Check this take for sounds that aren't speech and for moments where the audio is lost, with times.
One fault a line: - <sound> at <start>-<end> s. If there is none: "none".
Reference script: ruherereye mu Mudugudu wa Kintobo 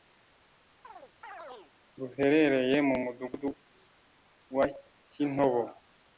- chirp at 0.8-1.7 s